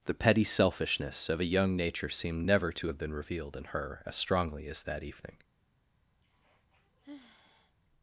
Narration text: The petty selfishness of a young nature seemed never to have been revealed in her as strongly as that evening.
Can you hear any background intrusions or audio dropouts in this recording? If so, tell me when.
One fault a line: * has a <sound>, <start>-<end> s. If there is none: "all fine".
* has a sigh, 6.2-7.8 s